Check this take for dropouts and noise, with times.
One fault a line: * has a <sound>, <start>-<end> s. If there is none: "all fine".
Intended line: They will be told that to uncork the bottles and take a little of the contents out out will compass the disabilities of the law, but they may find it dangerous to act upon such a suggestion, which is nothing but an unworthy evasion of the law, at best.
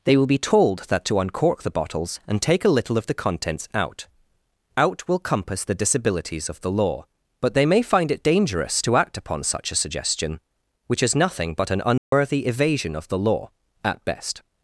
* has a dropout, 12.0-12.1 s